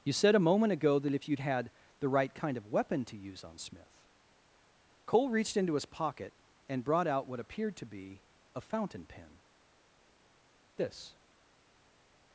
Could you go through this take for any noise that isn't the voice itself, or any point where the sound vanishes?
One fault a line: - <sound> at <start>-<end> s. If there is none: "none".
none